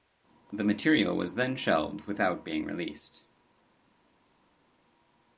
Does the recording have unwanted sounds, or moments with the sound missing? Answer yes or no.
no